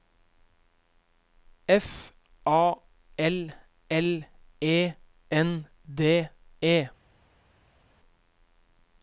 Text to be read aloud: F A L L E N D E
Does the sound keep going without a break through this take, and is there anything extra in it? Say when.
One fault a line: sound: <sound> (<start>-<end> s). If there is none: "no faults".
no faults